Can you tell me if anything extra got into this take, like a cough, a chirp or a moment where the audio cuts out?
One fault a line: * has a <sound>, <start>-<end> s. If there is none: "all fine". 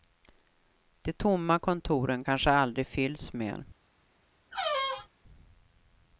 * has a squeak, 4.5-5.1 s